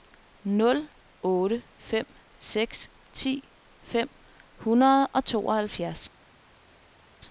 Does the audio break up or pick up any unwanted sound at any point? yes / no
no